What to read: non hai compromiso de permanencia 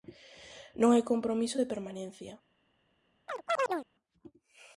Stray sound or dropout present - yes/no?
yes